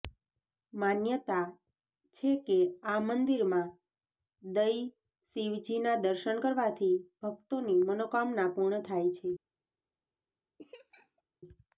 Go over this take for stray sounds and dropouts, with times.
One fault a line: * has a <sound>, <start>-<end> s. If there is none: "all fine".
* has a laugh, 10.6-11.2 s